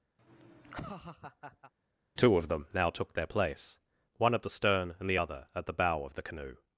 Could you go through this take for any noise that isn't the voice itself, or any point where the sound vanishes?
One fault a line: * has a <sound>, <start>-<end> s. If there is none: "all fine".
* has a laugh, 0.2-1.7 s